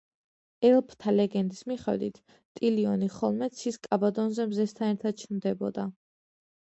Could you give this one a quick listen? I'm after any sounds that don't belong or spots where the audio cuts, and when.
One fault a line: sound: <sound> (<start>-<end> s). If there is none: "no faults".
no faults